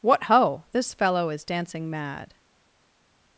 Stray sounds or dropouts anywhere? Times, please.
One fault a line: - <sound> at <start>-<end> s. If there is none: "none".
none